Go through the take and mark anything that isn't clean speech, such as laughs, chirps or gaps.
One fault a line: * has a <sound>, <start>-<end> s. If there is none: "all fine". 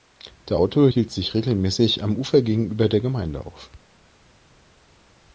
all fine